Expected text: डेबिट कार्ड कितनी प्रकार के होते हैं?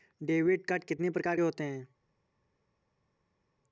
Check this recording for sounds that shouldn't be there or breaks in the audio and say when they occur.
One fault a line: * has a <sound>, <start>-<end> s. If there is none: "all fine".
all fine